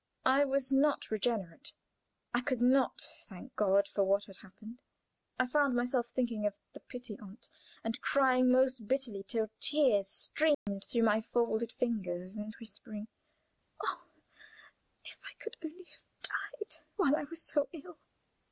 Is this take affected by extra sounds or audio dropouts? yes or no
yes